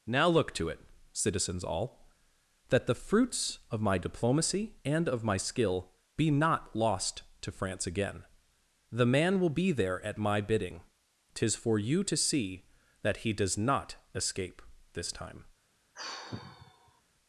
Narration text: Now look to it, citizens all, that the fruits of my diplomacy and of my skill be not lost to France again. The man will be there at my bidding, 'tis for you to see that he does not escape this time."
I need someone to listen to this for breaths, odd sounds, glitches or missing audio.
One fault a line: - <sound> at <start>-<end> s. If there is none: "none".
- sigh at 15.9-17.0 s